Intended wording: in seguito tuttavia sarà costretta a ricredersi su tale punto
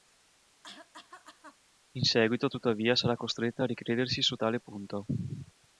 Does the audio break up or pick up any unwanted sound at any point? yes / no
yes